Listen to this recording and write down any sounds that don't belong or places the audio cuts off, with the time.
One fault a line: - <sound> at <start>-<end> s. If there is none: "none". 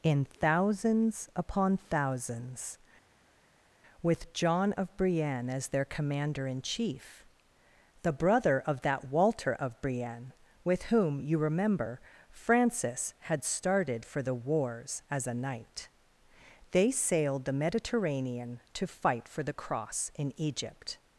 none